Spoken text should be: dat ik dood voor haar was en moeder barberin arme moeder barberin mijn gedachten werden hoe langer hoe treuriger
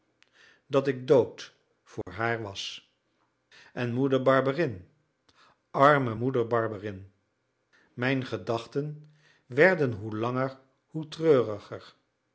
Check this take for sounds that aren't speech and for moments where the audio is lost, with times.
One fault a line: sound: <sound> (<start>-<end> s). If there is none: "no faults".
sound: dropout (2.0-2.1 s)